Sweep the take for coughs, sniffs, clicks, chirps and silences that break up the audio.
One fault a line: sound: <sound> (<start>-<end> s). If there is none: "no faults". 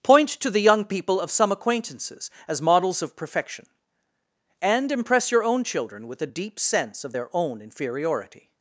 no faults